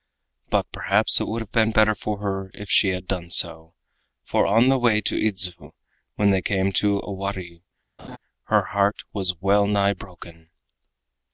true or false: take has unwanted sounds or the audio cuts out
true